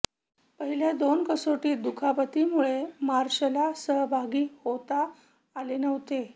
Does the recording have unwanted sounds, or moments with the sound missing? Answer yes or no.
no